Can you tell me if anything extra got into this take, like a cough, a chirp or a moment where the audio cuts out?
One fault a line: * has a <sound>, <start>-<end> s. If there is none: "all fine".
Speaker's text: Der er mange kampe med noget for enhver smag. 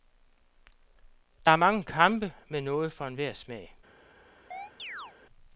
* has a chirp, 4.5-5.1 s